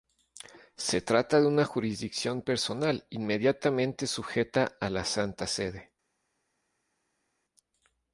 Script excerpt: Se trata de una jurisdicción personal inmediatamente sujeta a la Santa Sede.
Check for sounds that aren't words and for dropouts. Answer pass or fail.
pass